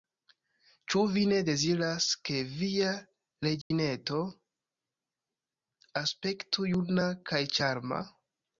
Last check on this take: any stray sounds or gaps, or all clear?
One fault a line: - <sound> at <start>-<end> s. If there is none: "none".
- dropout at 3.6-3.7 s